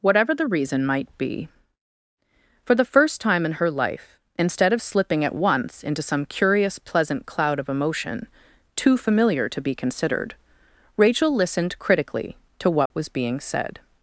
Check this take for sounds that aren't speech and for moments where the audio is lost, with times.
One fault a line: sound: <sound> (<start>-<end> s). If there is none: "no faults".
sound: dropout (12.9-12.9 s)